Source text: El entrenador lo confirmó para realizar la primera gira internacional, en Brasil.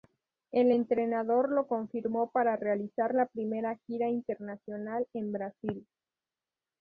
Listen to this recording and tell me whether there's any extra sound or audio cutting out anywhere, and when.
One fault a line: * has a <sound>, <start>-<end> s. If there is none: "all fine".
all fine